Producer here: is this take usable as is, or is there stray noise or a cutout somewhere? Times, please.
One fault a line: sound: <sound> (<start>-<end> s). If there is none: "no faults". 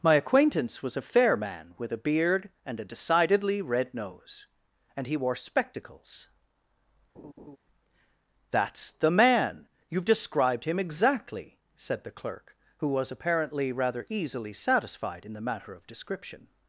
sound: laugh (7.1-7.6 s)